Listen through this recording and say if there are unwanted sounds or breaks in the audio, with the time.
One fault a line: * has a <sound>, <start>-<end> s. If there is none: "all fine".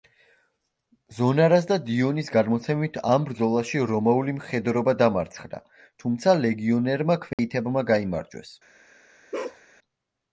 * has a dropout, 7.3-7.4 s
* has a bark, 9.3-9.6 s